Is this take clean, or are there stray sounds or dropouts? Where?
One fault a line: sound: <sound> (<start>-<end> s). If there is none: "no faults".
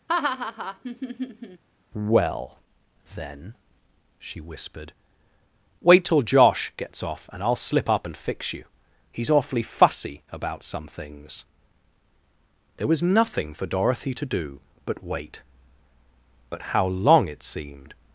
sound: laugh (0.1-1.6 s)